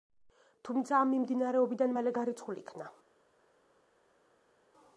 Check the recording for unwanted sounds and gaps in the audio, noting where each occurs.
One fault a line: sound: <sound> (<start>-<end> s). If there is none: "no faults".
no faults